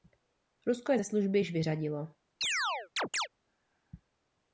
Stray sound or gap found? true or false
true